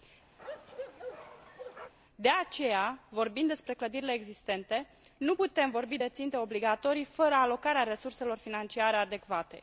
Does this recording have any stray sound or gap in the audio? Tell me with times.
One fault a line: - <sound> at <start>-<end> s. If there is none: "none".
- bark at 0.4-1.9 s